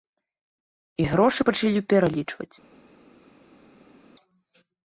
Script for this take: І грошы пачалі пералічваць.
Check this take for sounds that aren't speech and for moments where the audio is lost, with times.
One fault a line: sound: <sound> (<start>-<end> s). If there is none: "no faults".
no faults